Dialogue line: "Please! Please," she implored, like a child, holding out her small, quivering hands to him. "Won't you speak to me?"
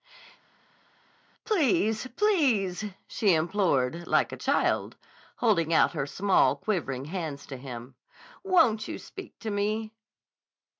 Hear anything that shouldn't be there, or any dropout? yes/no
no